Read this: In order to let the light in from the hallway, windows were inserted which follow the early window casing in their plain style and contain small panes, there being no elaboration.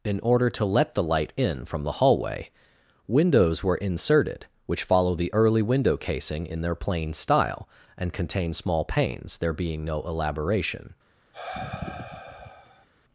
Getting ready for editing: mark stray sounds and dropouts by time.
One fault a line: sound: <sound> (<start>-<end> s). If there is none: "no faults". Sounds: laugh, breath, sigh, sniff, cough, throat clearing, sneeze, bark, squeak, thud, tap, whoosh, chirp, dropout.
sound: sigh (11.3-12.9 s)